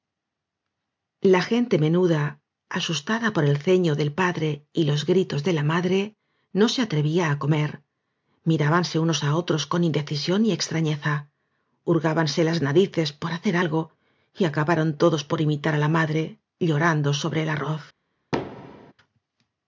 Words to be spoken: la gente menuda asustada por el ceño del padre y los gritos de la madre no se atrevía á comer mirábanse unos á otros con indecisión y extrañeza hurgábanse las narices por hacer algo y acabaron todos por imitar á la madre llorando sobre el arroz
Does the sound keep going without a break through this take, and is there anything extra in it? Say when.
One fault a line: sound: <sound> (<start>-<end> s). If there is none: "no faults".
sound: thud (18.3-18.9 s)